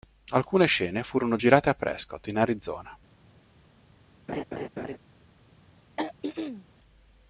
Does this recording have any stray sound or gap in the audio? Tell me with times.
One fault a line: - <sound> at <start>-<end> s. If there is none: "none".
- laugh at 4.3-5.0 s
- throat clearing at 6.0-6.7 s